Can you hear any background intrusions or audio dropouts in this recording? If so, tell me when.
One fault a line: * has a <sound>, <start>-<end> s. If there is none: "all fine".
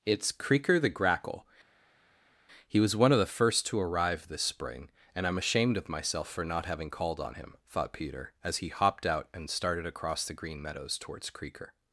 all fine